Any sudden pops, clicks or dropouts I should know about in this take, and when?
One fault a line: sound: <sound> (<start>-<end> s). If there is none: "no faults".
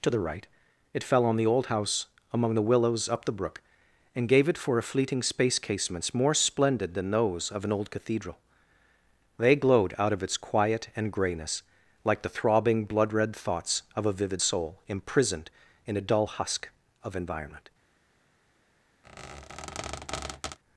sound: squeak (19.0-20.6 s)